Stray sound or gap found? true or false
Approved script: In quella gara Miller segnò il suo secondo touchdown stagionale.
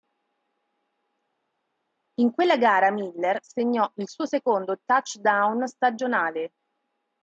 false